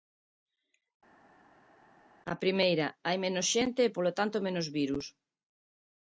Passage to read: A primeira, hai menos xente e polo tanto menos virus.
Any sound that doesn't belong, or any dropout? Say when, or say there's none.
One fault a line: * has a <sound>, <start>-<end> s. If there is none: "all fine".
all fine